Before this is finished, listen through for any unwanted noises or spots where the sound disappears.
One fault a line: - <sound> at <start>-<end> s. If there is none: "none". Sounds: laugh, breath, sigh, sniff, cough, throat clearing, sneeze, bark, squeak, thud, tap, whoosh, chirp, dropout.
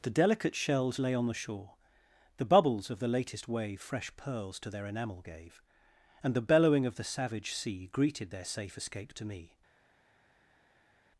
none